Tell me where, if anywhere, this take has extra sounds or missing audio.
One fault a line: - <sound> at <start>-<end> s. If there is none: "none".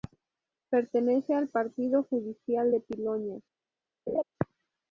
- laugh at 4.1-4.2 s